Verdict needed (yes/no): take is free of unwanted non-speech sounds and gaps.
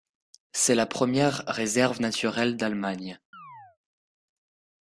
no